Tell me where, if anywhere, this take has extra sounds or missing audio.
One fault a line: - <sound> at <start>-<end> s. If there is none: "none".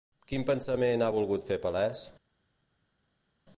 none